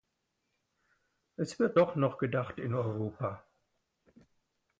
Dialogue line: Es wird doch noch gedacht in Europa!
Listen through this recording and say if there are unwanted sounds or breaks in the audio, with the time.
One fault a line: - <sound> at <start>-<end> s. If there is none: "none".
none